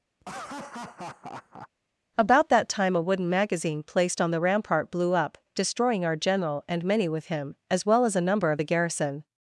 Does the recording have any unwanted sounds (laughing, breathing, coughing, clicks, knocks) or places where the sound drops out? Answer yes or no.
yes